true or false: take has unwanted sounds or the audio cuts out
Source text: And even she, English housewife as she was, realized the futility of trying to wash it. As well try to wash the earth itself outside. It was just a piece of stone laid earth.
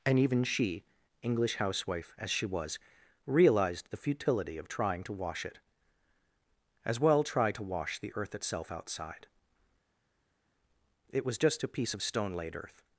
false